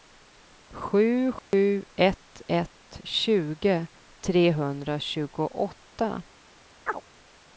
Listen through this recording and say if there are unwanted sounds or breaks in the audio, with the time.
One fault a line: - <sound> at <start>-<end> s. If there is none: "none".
- dropout at 1.4-1.5 s
- chirp at 6.9-7.0 s